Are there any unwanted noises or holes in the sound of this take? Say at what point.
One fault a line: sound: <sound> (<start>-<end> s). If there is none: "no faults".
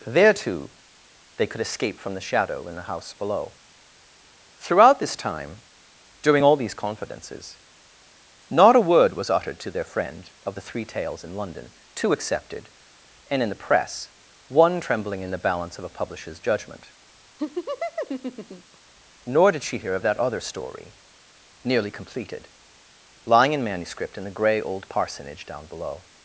sound: laugh (17.4-18.8 s)